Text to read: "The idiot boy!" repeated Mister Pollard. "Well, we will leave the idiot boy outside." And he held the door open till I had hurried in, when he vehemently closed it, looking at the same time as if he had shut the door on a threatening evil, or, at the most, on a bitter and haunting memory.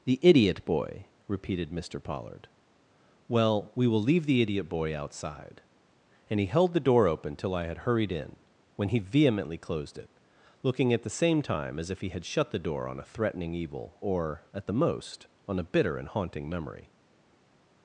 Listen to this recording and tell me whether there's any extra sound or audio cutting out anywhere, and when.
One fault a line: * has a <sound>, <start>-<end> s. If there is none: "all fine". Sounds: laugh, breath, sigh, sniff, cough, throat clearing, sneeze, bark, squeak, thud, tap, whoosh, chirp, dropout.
all fine